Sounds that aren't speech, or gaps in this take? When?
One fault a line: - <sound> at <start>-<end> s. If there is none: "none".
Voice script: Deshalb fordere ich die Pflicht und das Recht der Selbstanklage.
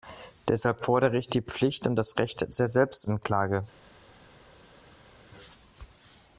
none